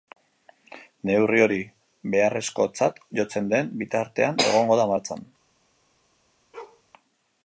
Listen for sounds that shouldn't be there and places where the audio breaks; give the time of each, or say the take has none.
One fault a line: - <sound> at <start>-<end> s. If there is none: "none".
- bark at 6.5-6.8 s